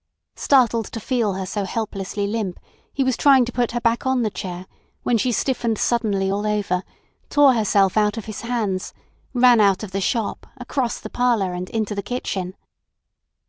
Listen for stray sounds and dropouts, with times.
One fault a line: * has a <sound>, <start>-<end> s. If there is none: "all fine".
all fine